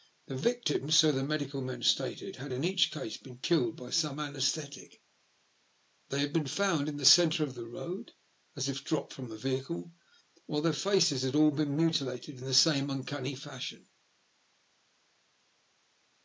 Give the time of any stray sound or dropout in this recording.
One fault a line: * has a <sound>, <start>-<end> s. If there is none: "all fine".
all fine